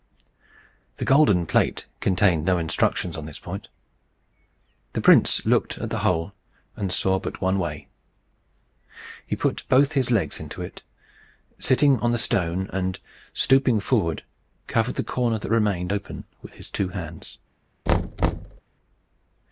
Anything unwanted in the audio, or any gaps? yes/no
yes